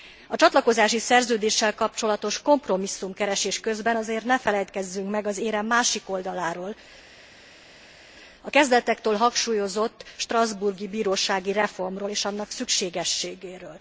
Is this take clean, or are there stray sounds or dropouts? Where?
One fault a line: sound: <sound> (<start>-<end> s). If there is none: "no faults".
no faults